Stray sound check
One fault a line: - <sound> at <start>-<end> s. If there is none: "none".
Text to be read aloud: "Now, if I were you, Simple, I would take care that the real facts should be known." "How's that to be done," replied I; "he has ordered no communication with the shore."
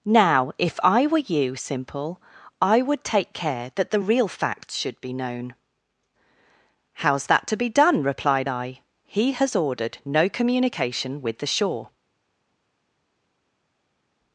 none